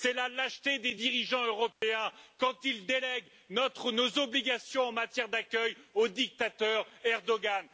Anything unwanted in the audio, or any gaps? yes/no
yes